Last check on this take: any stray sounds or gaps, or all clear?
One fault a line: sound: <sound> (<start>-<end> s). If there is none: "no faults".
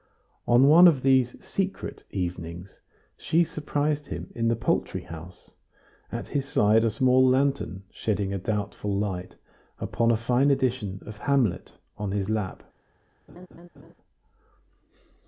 sound: laugh (13.3-13.9 s)